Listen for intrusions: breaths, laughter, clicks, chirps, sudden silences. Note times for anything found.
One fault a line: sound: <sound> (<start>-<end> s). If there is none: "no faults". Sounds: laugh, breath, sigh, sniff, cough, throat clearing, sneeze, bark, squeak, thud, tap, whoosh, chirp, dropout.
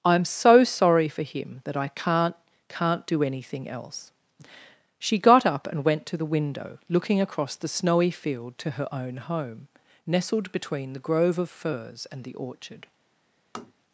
sound: tap (13.5-13.7 s)